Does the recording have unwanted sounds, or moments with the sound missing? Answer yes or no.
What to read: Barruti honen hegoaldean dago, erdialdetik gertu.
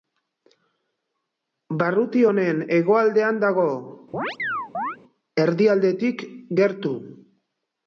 yes